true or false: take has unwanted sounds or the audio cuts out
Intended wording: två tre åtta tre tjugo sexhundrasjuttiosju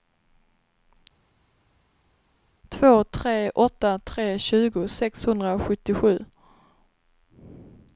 false